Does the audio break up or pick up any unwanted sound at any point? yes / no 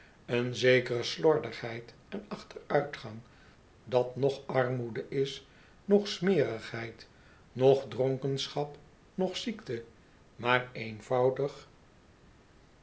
no